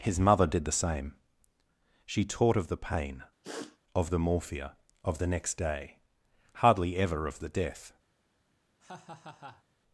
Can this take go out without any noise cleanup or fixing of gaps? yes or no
no